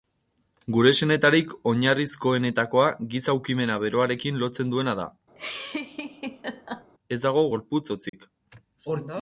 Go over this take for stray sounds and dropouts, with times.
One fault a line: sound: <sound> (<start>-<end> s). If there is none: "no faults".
sound: laugh (5.4-6.9 s)
sound: dropout (8.1-8.1 s)